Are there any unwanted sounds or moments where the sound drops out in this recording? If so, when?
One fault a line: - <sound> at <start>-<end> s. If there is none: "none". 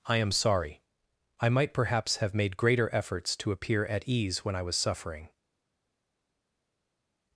none